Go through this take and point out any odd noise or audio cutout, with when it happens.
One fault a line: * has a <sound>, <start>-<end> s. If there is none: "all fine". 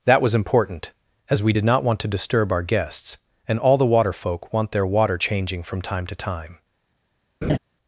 * has a laugh, 7.4-7.6 s